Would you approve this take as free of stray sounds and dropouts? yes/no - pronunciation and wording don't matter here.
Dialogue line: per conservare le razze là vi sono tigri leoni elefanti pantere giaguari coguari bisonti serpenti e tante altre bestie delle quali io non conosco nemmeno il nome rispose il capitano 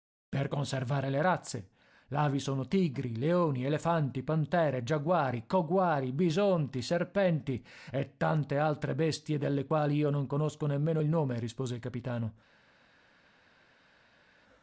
yes